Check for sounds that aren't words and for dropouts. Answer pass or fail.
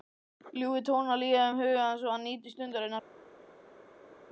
pass